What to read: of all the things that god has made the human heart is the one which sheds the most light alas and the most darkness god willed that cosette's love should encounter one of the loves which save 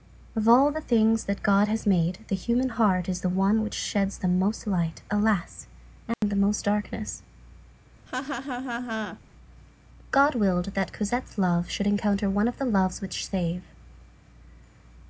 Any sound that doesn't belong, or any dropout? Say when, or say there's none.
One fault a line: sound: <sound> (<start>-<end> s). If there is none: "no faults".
sound: dropout (6.1-6.2 s)
sound: laugh (8.1-9.2 s)